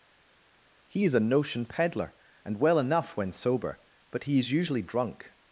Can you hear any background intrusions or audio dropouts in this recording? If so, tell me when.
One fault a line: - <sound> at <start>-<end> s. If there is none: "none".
none